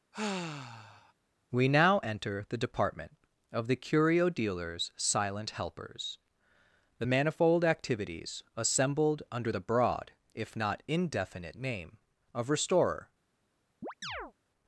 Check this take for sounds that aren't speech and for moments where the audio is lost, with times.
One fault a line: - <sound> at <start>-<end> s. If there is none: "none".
- sigh at 0.1-1.1 s
- chirp at 13.8-14.3 s